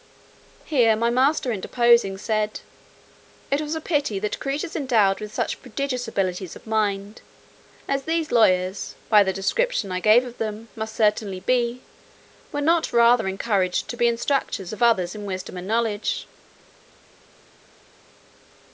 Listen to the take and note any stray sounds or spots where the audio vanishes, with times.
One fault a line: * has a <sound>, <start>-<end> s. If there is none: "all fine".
all fine